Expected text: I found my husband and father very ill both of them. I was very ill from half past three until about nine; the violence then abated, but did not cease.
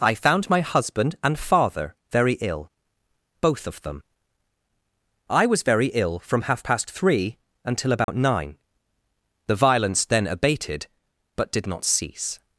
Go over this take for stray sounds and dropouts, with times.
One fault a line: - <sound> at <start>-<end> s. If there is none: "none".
- dropout at 8.0-8.1 s